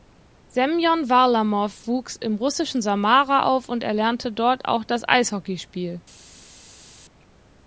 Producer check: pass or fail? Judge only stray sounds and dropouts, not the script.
pass